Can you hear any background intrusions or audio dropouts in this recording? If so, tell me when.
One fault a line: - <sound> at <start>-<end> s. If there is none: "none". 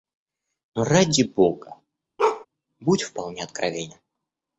- bark at 2.2-2.5 s